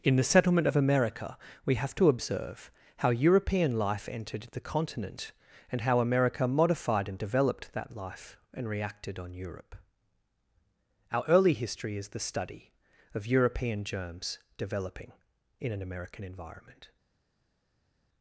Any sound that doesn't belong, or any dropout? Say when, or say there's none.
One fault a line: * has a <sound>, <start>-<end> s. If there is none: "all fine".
all fine